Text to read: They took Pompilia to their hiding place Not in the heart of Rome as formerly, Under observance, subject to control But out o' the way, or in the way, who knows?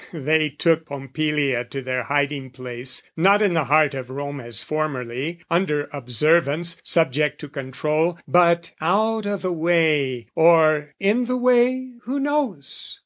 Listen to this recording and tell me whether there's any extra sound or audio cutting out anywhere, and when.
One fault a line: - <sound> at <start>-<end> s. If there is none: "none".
none